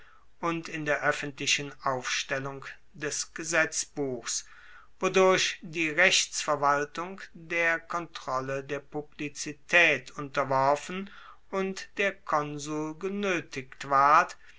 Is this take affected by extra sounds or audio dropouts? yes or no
no